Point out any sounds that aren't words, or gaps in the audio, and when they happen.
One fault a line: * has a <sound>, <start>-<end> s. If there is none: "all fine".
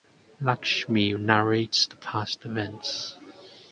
all fine